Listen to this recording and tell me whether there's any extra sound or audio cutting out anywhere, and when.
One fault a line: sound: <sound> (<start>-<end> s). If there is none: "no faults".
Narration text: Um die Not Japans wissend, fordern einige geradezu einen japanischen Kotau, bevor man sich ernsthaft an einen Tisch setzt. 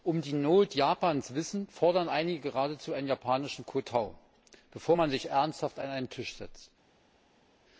no faults